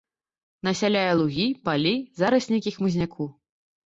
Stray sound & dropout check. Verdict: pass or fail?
pass